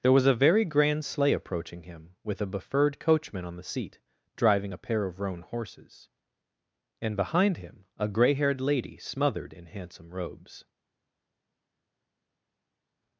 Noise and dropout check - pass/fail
pass